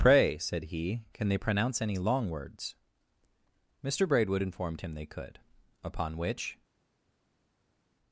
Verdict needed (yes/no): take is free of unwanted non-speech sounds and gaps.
yes